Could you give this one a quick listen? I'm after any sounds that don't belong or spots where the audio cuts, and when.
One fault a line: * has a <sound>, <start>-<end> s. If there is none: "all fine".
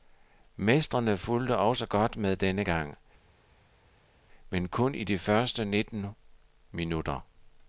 all fine